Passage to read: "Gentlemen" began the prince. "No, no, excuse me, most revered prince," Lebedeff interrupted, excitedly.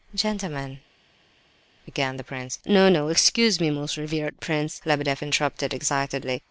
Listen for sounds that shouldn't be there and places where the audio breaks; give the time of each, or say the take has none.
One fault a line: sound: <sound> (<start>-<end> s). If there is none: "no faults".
no faults